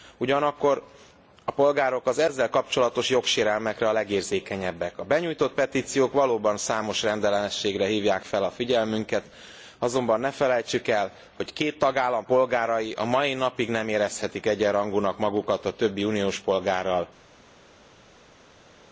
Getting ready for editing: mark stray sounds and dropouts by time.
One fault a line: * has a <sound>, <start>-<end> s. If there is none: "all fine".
all fine